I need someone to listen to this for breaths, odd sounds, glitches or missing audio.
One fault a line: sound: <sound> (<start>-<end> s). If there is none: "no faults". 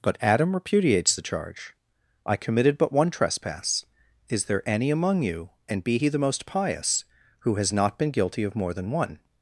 no faults